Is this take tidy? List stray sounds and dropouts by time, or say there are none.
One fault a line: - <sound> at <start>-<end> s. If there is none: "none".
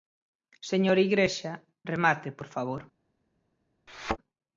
- thud at 3.9-4.2 s